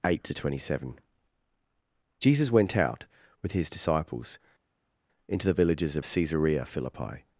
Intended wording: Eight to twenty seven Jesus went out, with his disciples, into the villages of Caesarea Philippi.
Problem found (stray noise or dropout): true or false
false